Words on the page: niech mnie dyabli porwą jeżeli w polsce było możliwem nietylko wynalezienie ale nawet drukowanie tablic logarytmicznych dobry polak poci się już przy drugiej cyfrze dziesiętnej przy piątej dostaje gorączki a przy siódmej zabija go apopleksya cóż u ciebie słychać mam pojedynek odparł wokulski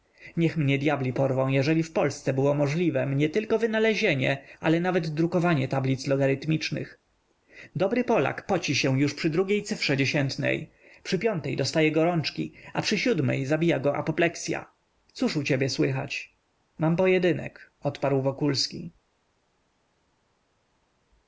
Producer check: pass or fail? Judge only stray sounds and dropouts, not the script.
pass